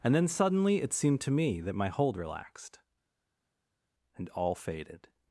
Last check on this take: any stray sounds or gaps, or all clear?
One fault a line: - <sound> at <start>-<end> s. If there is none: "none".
none